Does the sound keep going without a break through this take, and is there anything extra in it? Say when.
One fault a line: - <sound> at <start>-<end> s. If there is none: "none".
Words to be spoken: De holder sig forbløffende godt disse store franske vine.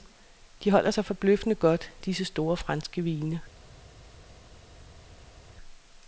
none